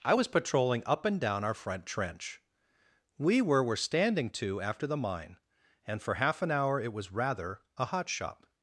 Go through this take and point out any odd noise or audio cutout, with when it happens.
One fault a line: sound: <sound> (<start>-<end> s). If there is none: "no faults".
no faults